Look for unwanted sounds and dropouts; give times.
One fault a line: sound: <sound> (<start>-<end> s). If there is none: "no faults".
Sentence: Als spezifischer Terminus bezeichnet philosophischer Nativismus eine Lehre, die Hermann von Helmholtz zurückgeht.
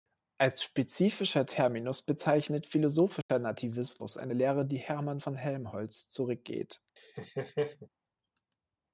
sound: dropout (3.2-3.3 s)
sound: laugh (7.0-7.9 s)